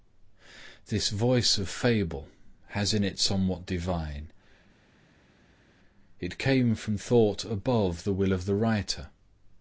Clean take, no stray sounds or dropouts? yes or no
yes